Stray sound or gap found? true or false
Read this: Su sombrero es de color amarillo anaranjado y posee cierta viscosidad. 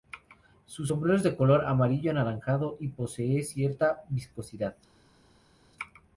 false